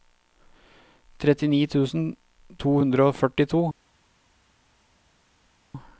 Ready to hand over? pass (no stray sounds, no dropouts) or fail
pass